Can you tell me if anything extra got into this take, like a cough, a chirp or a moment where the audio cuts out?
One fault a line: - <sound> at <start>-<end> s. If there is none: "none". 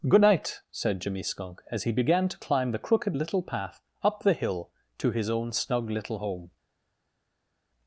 none